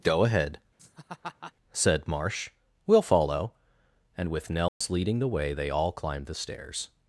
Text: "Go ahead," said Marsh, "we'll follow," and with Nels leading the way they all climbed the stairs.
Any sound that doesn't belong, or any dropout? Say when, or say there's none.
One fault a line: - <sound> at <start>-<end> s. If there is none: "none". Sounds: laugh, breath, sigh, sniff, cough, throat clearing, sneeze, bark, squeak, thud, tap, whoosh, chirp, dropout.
- laugh at 0.8-1.5 s
- dropout at 4.7-4.8 s